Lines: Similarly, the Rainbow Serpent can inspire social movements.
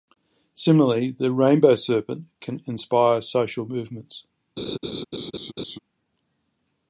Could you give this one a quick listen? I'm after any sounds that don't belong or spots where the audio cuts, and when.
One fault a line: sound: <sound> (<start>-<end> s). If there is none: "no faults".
sound: laugh (4.6-5.8 s)